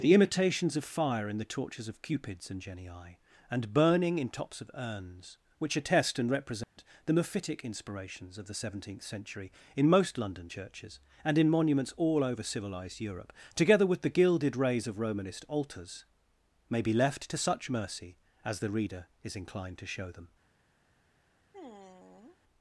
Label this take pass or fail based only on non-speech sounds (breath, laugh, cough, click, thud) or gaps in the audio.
fail